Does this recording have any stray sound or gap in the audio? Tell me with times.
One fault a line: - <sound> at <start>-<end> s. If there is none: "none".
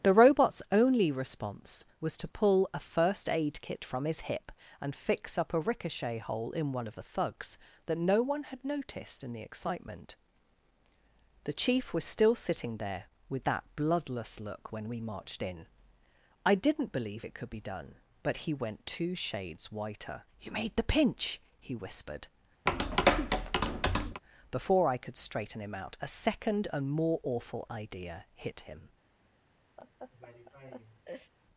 - tap at 22.7-24.2 s
- laugh at 29.8-31.3 s